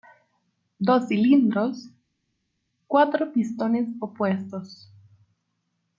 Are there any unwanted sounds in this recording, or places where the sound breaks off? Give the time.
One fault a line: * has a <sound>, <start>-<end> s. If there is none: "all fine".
all fine